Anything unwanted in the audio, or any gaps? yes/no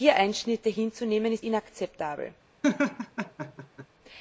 yes